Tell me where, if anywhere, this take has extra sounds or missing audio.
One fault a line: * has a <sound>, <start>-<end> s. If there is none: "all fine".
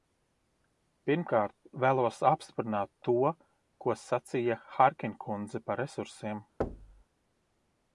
* has a thud, 6.6-7.0 s